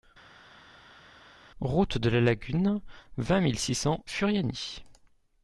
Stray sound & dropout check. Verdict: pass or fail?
pass